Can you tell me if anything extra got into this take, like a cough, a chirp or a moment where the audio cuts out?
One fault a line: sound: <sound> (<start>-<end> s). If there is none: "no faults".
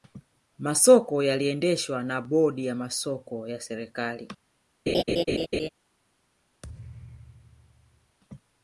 sound: laugh (4.9-5.7 s)
sound: thud (6.6-8.2 s)